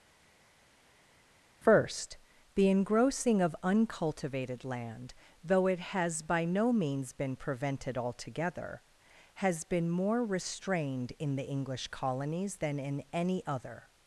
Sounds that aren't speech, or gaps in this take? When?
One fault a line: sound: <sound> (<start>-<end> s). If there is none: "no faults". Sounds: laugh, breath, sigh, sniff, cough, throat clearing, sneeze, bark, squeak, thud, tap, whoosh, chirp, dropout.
no faults